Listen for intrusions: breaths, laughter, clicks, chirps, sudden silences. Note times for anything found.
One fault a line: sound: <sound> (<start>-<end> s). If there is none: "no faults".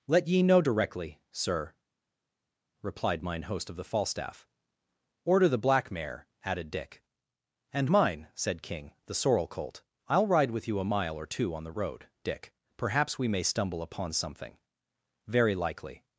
no faults